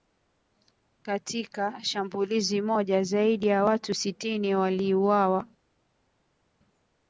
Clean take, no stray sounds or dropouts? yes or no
yes